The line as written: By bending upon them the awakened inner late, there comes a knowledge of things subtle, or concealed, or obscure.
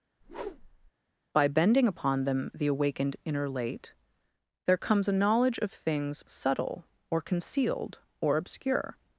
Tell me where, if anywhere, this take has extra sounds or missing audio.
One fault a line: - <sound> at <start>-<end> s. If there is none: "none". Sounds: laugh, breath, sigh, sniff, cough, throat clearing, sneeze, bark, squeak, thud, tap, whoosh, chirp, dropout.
- whoosh at 0.2-0.9 s